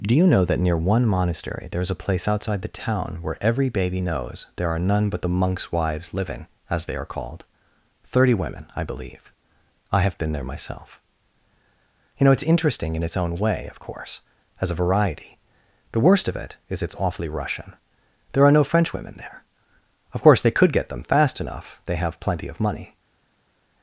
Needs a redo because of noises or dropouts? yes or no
no